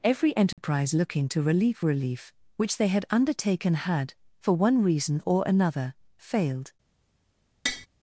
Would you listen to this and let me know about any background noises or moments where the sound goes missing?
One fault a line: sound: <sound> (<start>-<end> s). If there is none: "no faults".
sound: dropout (0.5-0.6 s)
sound: tap (7.7-7.9 s)